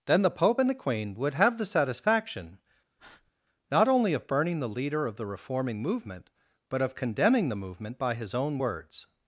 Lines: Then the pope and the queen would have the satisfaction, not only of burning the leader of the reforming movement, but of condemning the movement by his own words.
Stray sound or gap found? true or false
true